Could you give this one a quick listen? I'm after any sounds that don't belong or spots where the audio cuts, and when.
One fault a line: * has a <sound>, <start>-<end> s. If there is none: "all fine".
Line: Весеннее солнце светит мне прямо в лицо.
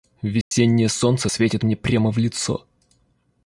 * has a dropout, 0.4-0.5 s